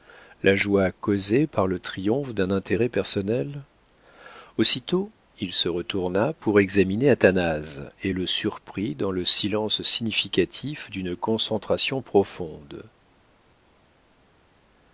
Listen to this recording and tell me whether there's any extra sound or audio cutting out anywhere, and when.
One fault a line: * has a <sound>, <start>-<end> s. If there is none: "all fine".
all fine